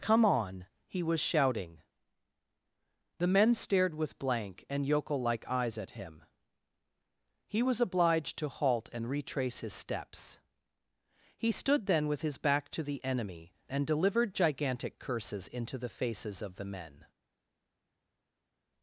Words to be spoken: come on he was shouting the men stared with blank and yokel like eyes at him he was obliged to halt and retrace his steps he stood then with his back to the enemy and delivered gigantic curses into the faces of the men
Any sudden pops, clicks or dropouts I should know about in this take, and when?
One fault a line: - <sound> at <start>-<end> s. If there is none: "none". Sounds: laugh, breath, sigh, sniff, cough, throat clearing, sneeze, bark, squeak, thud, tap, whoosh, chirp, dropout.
none